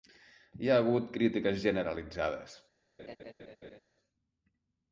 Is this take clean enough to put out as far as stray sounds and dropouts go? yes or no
no